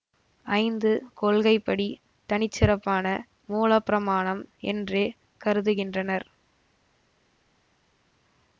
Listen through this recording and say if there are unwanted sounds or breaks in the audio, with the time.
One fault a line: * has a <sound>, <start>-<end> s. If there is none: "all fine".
all fine